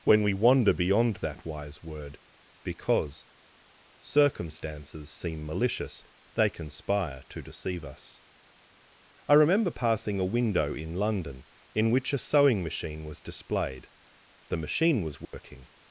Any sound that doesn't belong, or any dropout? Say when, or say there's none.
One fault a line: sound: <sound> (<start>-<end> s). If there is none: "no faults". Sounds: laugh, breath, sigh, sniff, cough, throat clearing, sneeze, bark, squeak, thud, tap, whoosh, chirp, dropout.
sound: dropout (15.2-15.3 s)